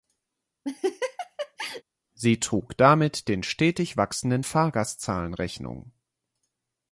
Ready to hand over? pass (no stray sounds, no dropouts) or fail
fail